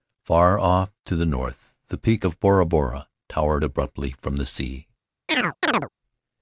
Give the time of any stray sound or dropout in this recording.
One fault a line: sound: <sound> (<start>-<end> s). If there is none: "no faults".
sound: chirp (5.3-5.9 s)